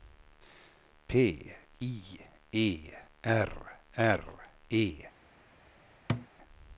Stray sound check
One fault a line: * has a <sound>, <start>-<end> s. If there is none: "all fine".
* has a thud, 6.1-6.3 s